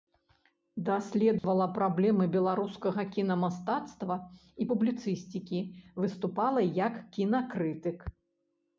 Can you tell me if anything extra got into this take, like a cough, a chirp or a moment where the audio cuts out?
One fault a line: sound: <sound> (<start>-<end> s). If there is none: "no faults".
sound: dropout (1.4-1.4 s)